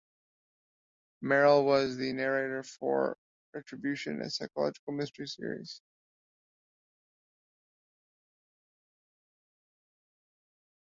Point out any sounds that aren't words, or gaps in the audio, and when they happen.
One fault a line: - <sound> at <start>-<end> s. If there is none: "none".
none